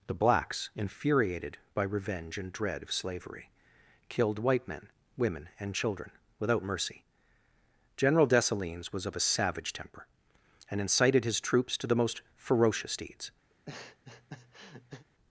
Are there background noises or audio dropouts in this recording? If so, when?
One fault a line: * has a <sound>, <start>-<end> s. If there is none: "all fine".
* has a laugh, 13.5-15.1 s